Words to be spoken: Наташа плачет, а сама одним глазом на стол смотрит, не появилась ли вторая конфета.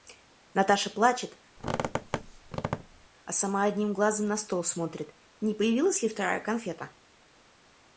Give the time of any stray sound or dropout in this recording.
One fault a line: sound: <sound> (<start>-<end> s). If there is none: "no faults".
sound: squeak (1.6-3.1 s)